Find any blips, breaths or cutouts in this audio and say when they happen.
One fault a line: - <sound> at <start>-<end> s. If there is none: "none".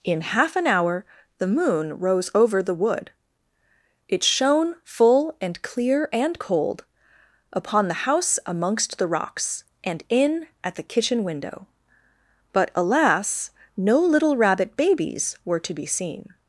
none